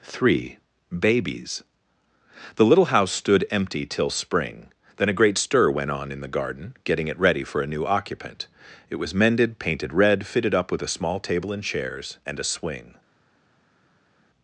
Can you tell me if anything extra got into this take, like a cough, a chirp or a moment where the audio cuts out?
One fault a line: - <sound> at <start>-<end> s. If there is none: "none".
none